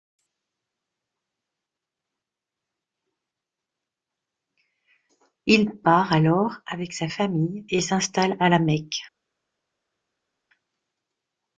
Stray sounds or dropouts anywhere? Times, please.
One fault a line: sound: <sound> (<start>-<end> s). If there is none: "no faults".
no faults